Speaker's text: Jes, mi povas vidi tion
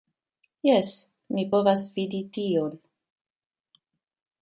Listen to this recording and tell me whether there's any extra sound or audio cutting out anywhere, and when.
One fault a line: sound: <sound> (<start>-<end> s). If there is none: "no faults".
no faults